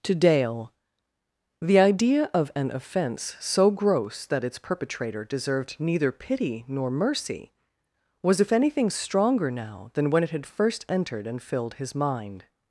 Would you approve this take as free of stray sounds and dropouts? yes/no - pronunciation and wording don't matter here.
yes